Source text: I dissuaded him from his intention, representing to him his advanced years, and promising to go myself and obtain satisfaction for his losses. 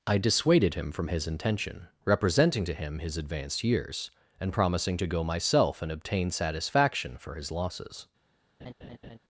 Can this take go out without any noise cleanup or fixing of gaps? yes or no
no